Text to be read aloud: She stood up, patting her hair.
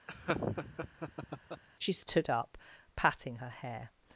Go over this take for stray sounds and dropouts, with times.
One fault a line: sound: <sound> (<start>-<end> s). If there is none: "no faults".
sound: laugh (0.1-1.6 s)